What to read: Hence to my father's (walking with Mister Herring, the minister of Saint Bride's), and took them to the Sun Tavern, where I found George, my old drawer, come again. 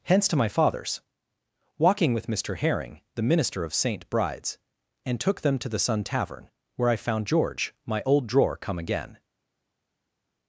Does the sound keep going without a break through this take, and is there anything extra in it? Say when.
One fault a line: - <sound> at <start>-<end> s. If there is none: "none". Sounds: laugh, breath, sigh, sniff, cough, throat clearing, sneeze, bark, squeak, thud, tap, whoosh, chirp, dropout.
none